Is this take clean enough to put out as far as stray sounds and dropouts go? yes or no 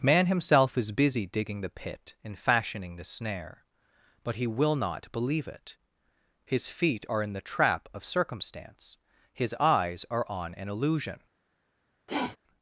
no